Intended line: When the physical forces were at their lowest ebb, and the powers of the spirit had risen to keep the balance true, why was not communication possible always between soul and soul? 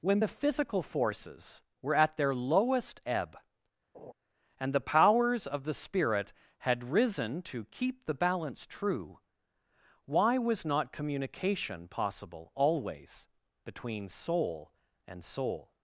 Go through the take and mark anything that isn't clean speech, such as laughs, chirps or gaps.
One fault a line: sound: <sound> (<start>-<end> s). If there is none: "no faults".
sound: laugh (3.9-4.1 s)